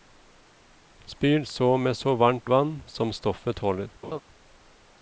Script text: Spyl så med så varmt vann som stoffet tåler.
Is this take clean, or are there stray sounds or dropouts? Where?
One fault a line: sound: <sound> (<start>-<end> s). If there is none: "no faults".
sound: laugh (4.0-4.2 s)